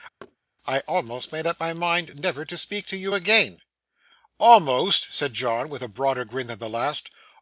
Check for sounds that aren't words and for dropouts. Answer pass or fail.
fail